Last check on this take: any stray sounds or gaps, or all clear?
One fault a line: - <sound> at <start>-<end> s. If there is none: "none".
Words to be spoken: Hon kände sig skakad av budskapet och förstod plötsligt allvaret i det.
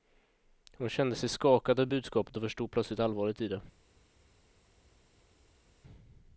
none